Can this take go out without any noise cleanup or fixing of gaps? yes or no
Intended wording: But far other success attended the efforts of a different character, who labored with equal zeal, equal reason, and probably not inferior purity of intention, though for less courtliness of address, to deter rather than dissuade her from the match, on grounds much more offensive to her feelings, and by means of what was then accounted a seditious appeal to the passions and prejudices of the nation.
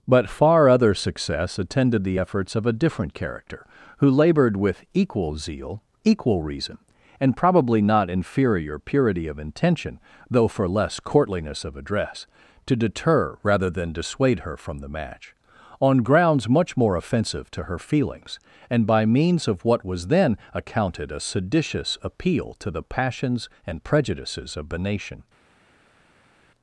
yes